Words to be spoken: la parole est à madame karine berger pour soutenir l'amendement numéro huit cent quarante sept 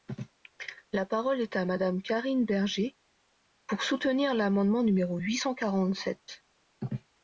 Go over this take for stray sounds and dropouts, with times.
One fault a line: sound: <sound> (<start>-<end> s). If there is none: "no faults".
no faults